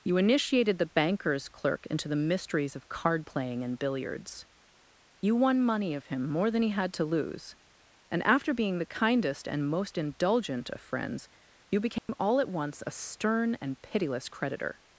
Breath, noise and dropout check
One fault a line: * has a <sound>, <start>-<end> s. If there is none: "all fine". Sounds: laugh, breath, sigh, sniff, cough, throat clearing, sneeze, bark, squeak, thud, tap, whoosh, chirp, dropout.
* has a dropout, 12.0-12.1 s